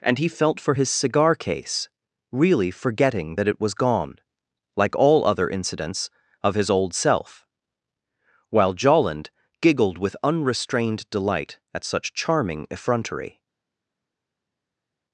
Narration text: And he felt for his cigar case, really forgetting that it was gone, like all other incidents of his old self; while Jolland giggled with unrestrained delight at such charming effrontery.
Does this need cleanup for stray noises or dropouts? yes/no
no